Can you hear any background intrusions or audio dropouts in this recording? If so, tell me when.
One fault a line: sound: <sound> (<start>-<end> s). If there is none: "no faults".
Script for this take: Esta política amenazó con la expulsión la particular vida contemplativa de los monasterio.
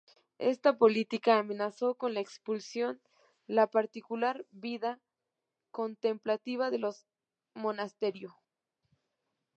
no faults